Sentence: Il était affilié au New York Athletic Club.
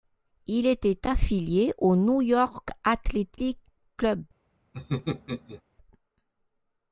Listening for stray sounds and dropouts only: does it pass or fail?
fail